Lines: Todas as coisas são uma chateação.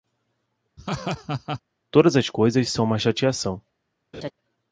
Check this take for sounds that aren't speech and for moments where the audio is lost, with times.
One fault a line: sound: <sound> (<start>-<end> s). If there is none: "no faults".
sound: laugh (0.8-1.6 s)
sound: laugh (4.1-4.3 s)